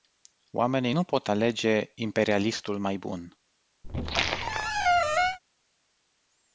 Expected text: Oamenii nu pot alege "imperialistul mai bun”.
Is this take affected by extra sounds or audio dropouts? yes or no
yes